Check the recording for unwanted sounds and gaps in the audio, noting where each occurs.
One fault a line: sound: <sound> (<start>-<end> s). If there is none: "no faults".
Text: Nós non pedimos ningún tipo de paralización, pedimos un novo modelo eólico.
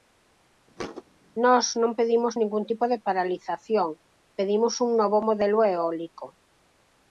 sound: thud (0.8-1.0 s)